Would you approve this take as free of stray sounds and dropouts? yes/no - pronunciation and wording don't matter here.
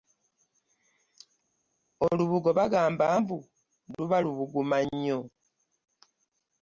yes